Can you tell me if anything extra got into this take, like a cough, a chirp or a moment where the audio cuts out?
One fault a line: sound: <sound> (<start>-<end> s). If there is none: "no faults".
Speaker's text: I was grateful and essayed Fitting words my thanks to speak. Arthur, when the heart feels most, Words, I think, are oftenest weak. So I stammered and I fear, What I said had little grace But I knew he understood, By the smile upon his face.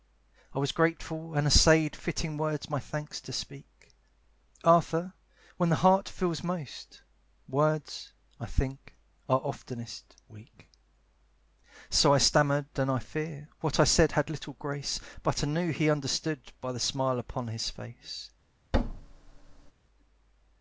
sound: thud (18.7-19.7 s)